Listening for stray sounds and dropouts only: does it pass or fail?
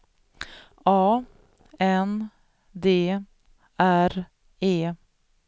pass